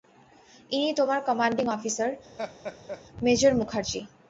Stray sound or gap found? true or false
true